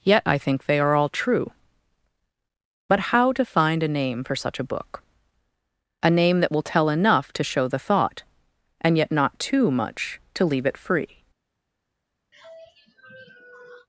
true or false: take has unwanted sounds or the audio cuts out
true